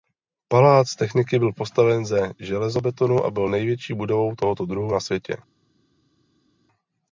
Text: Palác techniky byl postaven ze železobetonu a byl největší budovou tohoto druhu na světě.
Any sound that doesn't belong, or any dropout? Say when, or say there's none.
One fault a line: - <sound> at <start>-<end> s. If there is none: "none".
none